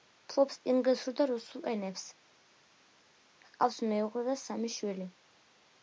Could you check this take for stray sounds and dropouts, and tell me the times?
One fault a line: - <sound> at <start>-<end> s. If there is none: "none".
none